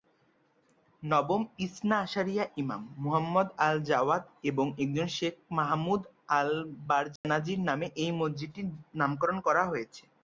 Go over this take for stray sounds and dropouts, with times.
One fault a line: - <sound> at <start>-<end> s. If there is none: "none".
- dropout at 7.2-7.2 s